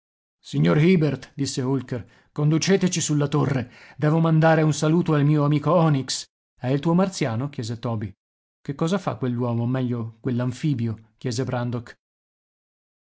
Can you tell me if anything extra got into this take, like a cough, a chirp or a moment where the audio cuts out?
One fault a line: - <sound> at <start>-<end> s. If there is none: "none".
none